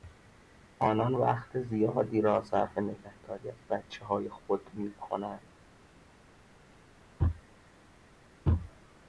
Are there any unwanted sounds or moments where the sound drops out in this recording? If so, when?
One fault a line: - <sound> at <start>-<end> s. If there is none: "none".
none